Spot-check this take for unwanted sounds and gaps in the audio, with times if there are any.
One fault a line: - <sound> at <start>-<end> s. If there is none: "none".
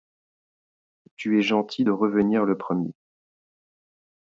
none